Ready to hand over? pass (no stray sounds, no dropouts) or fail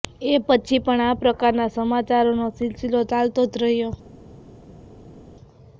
pass